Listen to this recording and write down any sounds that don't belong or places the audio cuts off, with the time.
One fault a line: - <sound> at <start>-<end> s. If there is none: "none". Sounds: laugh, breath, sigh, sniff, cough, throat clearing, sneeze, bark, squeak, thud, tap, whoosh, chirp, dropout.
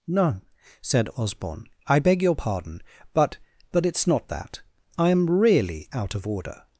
none